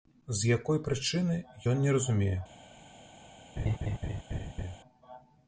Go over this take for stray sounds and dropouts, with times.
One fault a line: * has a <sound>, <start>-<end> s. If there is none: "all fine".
* has a laugh, 3.6-4.8 s